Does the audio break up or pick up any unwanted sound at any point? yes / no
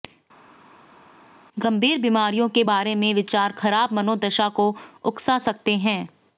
no